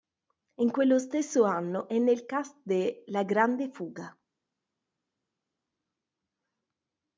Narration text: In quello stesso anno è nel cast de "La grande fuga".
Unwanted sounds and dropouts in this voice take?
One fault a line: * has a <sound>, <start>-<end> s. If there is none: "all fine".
all fine